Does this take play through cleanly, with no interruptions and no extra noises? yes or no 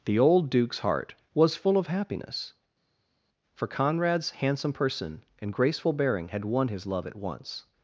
yes